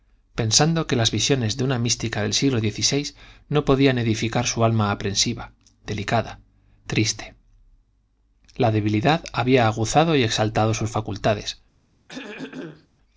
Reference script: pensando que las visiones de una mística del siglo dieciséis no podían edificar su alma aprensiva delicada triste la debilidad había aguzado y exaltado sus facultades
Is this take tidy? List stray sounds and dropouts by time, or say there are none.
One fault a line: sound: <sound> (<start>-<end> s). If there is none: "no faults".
sound: throat clearing (12.1-12.9 s)